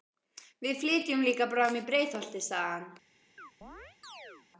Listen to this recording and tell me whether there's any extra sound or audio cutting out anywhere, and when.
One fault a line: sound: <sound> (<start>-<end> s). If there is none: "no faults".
sound: chirp (3.4-4.5 s)